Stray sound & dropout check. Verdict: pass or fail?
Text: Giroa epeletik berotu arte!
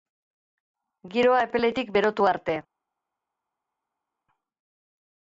pass